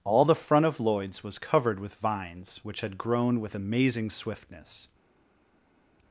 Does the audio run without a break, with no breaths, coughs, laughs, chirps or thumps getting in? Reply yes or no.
yes